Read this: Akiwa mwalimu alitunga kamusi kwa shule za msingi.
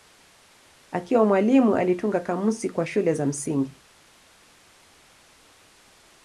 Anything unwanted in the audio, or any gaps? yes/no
no